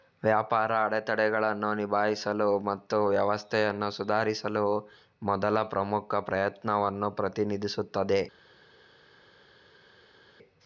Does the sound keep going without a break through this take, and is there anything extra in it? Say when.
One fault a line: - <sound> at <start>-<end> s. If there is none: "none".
none